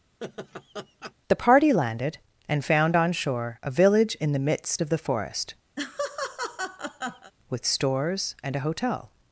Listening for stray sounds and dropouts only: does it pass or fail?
fail